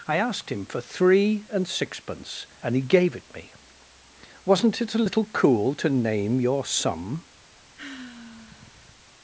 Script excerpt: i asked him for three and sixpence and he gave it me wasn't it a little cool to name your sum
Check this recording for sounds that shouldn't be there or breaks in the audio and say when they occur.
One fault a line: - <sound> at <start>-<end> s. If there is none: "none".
- sigh at 7.8-9.0 s